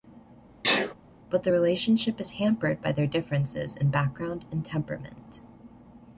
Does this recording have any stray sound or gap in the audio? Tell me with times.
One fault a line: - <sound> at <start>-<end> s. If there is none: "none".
- sneeze at 0.6-0.9 s